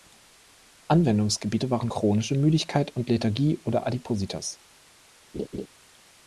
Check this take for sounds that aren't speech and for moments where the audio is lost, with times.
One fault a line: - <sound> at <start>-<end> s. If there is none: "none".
- laugh at 5.3-5.7 s